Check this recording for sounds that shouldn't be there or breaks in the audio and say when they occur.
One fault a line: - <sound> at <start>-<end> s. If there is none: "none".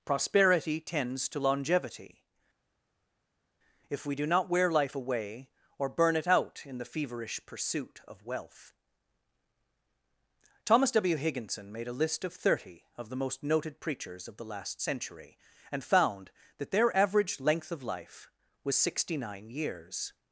none